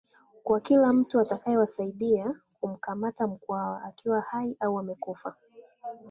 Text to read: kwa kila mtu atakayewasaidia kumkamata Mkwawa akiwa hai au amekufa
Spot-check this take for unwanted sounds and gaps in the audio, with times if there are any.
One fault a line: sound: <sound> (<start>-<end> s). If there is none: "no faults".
no faults